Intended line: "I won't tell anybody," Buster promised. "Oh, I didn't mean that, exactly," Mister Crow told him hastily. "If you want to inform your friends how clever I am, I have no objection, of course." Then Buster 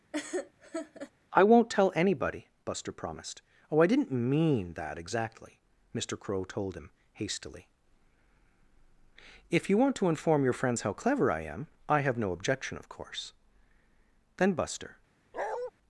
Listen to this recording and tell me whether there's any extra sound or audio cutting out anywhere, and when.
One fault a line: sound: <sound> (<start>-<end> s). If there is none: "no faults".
sound: laugh (0.1-1.1 s)
sound: bark (15.3-15.7 s)